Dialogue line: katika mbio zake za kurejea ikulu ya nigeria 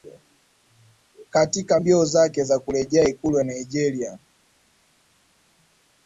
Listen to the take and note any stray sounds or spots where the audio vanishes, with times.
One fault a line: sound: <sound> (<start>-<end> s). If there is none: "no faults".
no faults